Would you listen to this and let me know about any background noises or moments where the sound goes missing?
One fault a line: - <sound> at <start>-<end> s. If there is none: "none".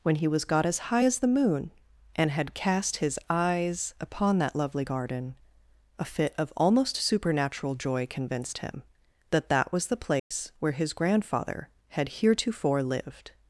- dropout at 10.2-10.3 s